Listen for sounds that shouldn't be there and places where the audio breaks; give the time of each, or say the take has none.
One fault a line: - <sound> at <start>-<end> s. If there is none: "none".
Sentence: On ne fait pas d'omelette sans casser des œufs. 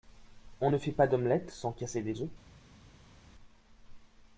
none